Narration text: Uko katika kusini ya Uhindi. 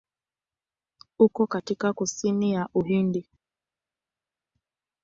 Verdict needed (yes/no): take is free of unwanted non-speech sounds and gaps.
yes